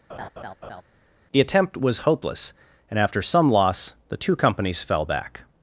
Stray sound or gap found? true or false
true